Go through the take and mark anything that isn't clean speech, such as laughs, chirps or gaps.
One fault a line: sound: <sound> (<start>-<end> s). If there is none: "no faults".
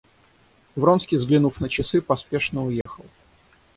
sound: dropout (2.8-2.9 s)